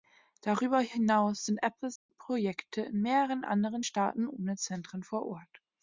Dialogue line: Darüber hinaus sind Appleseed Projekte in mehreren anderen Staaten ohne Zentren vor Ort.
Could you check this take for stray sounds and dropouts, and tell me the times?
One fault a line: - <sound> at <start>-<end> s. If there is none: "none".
- dropout at 2.0-2.1 s